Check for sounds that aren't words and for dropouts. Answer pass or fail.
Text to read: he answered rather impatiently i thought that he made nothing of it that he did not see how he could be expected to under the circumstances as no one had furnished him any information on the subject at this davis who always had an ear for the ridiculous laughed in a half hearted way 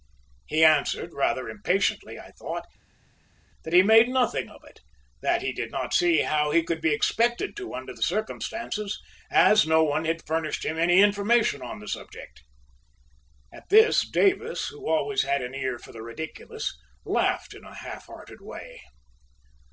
pass